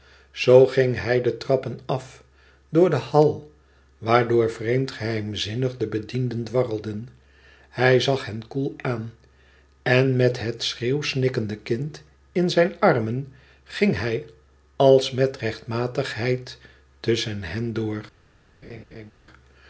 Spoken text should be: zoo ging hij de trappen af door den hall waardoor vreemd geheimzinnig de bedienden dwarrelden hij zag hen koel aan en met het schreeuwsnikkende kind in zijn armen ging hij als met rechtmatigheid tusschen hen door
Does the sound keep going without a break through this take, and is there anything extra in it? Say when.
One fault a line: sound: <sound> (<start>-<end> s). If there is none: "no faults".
sound: laugh (18.6-19.1 s)